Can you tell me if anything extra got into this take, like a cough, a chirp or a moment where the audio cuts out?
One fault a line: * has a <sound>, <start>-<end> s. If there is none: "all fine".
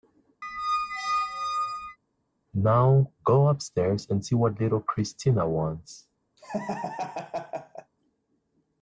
* has a squeak, 0.4-2.0 s
* has a laugh, 6.4-7.9 s